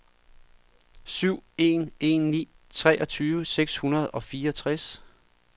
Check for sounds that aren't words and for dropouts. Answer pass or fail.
pass